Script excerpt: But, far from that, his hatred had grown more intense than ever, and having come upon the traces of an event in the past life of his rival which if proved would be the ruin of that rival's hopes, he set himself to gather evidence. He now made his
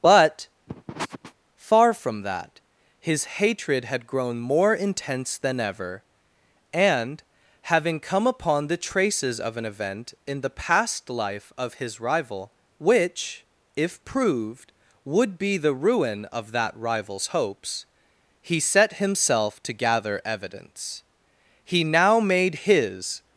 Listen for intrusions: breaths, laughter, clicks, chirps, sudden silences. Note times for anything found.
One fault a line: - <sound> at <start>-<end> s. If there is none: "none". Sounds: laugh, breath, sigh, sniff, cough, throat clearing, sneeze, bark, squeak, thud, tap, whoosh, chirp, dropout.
- sniff at 0.7-1.3 s